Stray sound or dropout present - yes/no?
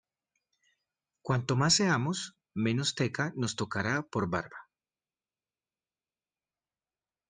no